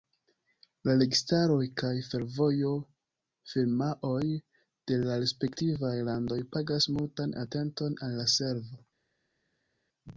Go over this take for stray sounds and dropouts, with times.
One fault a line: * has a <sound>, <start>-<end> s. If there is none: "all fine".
all fine